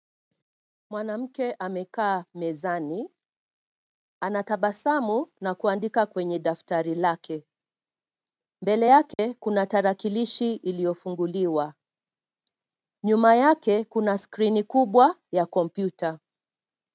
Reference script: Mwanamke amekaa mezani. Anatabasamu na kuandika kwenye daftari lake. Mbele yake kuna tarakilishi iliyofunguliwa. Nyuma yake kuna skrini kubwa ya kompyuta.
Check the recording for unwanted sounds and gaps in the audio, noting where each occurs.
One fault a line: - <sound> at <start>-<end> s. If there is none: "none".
- dropout at 9.1-9.2 s